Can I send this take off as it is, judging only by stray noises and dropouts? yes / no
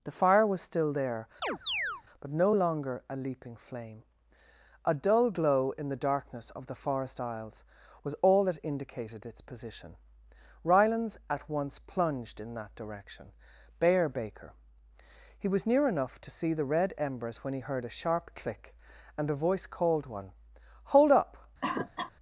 no